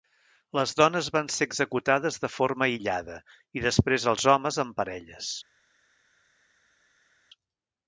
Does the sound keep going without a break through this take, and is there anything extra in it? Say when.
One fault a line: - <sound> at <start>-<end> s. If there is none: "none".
none